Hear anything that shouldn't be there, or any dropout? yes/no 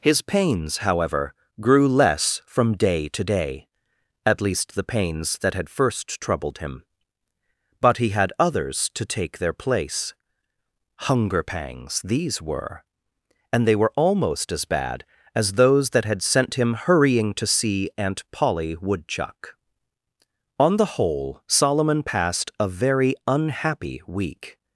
no